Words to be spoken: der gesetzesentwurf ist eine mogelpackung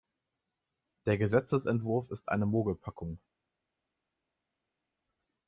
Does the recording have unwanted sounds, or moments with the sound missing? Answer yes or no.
no